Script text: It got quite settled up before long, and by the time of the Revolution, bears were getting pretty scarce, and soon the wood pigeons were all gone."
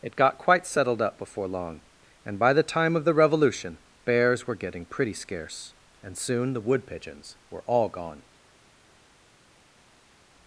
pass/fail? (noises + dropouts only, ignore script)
pass